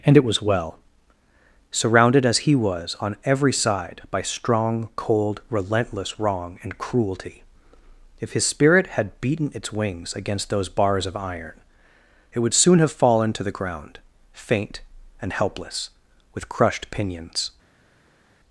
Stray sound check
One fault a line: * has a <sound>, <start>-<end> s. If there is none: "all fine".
all fine